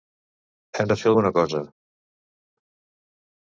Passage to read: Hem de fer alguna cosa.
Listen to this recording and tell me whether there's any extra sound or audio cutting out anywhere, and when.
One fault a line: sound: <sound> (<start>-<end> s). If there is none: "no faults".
no faults